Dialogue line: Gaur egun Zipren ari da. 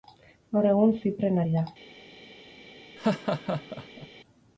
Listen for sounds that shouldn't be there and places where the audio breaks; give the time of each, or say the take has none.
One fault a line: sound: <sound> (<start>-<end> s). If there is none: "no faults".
sound: laugh (3.0-4.1 s)